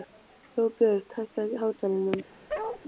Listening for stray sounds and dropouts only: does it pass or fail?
fail